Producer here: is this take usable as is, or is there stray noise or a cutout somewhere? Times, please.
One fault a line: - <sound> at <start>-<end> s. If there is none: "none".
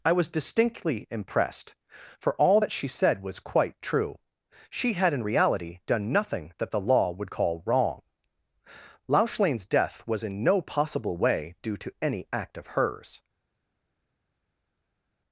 none